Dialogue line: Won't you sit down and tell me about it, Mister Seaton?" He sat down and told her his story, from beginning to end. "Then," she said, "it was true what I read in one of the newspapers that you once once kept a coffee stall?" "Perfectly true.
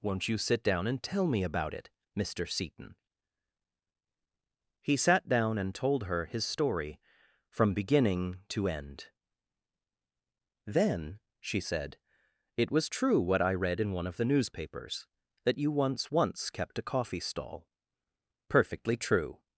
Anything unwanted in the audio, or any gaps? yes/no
no